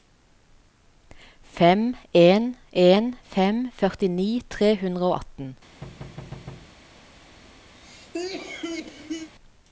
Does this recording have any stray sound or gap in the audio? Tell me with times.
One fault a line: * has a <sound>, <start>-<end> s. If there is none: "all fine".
* has a thud, 5.8-6.8 s
* has a cough, 7.8-9.3 s